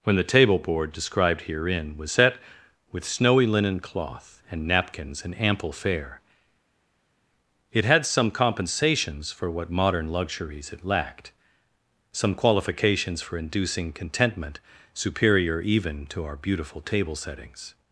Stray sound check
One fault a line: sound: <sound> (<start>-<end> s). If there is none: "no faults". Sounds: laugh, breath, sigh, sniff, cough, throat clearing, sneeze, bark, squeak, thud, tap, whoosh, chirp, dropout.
no faults